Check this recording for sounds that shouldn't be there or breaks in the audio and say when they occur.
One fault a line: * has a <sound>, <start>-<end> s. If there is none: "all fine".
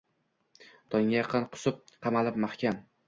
all fine